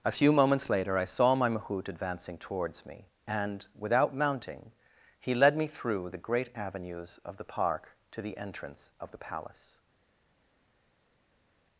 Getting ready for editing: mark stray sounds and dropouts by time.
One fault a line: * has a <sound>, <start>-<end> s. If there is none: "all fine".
all fine